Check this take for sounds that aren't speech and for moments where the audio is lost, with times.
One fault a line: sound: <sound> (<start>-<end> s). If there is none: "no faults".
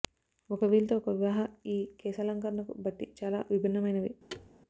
sound: thud (4.3-4.5 s)